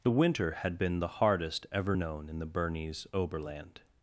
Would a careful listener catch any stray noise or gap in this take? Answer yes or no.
no